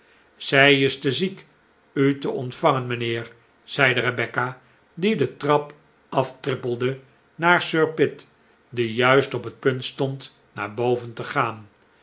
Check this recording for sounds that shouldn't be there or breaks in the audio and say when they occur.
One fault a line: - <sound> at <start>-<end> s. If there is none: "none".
none